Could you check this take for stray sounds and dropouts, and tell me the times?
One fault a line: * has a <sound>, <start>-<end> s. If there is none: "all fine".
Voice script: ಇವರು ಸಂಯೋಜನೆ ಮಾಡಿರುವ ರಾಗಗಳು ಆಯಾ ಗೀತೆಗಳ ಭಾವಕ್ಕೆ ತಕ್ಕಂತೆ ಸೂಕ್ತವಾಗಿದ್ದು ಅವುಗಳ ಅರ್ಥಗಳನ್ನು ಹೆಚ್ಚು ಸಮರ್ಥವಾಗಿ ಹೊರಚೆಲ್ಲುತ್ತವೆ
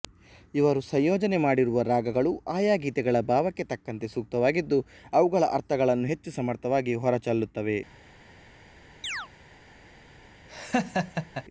* has a chirp, 9.0-9.3 s
* has a laugh, 10.5-11.4 s